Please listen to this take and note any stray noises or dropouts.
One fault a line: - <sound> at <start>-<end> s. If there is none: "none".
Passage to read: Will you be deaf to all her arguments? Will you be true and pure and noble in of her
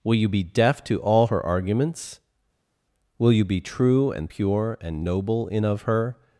none